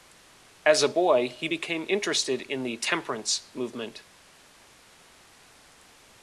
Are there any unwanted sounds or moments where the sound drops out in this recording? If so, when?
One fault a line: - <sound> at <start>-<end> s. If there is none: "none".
none